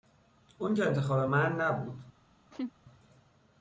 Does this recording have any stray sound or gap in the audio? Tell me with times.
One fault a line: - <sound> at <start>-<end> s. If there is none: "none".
- laugh at 2.5-2.7 s